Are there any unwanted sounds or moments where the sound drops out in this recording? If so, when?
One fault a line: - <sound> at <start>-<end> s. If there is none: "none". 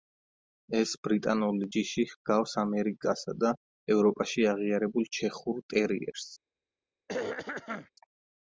- throat clearing at 7.1-7.9 s